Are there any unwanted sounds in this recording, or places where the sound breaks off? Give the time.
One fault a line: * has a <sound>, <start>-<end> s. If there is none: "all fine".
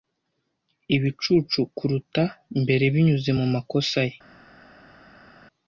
all fine